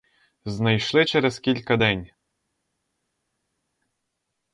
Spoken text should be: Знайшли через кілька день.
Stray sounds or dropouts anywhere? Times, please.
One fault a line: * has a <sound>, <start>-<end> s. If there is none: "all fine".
all fine